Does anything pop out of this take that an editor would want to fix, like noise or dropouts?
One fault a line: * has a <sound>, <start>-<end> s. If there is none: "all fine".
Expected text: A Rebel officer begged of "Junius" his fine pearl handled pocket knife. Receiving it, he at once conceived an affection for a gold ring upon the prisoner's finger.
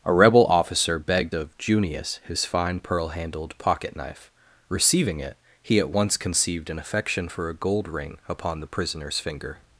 all fine